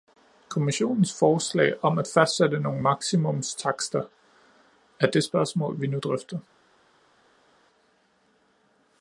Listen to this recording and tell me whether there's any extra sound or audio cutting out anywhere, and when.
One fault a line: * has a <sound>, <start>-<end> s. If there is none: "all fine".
all fine